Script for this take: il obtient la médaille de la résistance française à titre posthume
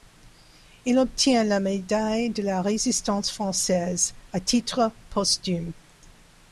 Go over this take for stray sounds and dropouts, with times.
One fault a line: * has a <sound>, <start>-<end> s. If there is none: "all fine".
all fine